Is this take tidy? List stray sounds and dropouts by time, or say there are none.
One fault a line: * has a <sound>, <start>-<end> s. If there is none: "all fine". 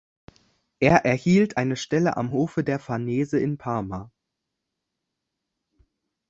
all fine